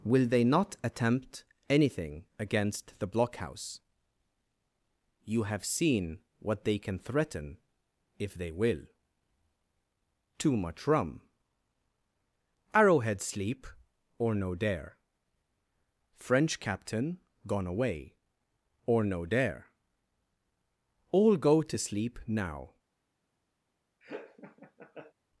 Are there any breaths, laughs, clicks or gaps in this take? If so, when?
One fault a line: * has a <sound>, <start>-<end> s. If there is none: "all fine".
* has a laugh, 24.0-25.1 s